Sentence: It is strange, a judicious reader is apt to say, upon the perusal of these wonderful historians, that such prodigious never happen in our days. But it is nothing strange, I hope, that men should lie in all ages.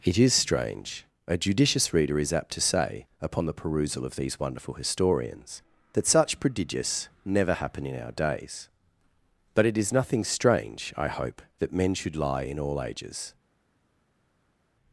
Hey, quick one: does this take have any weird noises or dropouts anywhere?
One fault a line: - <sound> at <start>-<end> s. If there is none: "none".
none